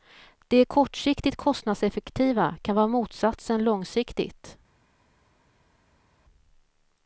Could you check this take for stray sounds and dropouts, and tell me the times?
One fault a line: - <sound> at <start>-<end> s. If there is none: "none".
none